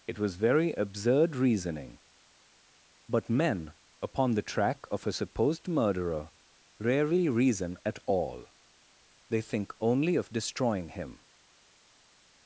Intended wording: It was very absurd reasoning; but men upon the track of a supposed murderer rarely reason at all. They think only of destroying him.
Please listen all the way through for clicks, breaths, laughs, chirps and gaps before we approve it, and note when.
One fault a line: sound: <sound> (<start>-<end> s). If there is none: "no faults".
no faults